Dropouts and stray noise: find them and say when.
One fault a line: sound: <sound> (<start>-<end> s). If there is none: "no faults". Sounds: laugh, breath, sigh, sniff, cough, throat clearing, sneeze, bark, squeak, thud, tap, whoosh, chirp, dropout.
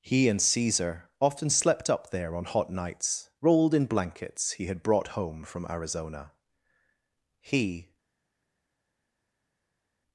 no faults